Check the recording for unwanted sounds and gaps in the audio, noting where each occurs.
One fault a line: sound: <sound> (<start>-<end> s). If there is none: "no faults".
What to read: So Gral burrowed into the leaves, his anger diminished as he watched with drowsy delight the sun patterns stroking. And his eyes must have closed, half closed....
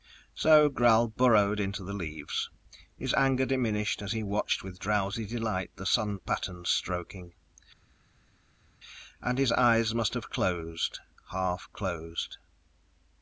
no faults